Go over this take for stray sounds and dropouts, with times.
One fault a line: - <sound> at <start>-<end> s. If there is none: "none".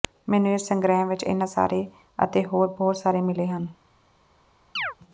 - chirp at 4.8-4.9 s